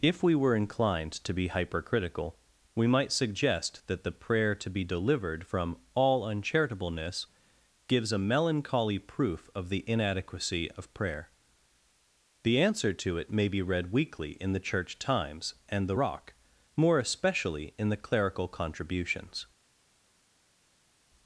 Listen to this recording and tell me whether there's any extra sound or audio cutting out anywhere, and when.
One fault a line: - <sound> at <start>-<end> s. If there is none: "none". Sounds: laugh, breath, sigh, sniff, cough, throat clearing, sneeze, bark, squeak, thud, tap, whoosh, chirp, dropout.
none